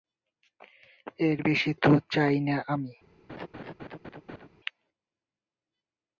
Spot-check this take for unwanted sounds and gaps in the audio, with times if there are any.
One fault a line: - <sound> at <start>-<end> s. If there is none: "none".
- laugh at 3.3-4.5 s